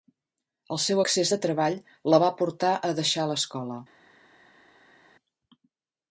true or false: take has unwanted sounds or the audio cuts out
false